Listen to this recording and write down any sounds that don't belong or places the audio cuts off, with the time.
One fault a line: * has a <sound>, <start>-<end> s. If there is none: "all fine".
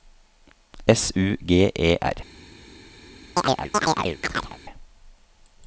* has a chirp, 3.4-4.6 s